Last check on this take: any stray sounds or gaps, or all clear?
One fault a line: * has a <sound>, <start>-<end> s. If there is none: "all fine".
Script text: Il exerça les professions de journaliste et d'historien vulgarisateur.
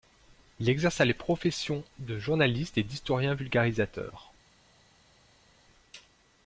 all fine